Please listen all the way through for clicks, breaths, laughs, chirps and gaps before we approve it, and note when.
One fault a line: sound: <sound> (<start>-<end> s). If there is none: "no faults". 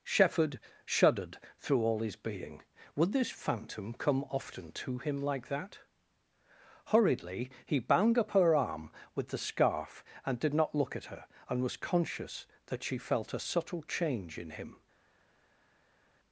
no faults